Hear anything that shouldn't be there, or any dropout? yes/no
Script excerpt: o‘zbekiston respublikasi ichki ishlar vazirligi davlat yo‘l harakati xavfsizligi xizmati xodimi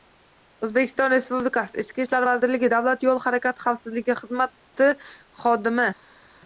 no